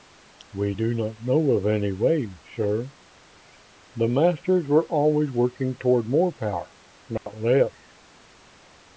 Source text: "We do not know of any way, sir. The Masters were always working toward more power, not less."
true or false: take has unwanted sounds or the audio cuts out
true